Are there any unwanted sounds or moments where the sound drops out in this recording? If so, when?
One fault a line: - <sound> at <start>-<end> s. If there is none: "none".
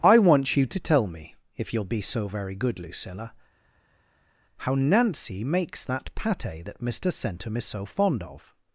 none